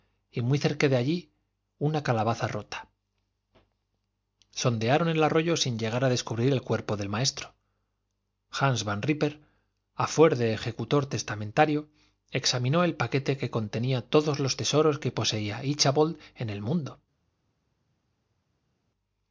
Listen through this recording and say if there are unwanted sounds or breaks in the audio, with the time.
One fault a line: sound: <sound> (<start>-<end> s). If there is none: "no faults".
no faults